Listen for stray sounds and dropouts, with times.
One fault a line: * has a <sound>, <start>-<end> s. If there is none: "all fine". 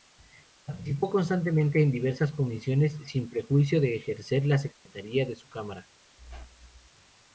* has a dropout, 4.7-4.9 s
* has a squeak, 6.2-6.9 s